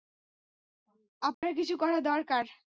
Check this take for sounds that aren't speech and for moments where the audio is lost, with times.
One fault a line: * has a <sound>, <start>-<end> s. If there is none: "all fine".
* has a dropout, 1.3-1.4 s